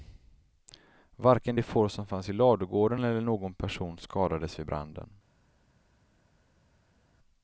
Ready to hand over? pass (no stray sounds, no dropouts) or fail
pass